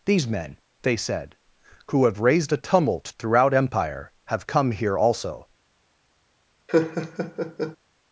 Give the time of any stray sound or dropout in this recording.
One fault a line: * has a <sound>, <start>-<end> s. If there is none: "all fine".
* has a laugh, 6.7-7.8 s